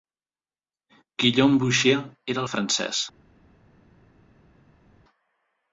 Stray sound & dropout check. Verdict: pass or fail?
pass